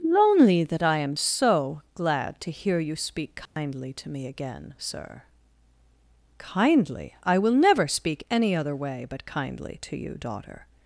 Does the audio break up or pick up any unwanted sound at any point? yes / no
yes